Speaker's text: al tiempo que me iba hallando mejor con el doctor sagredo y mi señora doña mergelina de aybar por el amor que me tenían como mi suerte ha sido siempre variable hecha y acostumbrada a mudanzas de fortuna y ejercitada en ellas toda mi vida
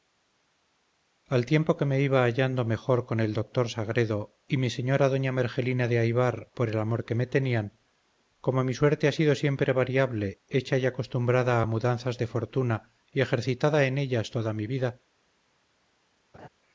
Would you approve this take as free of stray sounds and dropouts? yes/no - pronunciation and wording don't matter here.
no